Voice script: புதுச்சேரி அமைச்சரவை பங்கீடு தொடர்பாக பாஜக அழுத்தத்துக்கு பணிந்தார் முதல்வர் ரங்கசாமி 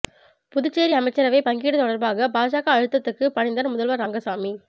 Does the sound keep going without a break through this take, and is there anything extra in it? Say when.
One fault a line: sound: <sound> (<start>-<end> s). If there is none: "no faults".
no faults